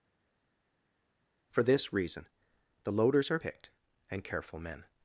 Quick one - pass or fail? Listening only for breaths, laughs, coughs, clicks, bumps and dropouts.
pass